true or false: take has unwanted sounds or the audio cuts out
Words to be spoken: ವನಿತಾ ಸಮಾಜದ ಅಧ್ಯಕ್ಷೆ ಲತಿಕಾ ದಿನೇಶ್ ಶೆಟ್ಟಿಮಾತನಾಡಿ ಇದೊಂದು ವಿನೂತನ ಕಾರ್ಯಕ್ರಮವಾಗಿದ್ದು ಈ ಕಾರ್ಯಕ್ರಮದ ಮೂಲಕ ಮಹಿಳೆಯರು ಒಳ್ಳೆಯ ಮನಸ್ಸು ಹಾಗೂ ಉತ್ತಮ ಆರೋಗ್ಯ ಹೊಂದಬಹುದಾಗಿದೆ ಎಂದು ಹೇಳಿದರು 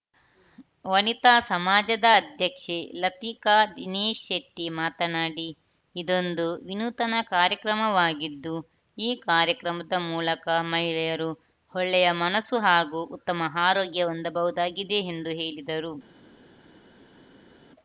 false